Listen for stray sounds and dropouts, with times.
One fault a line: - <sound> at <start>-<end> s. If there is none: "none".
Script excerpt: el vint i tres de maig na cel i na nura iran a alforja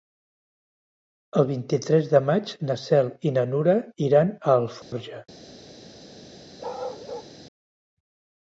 - dropout at 4.8-4.9 s
- bark at 6.6-7.3 s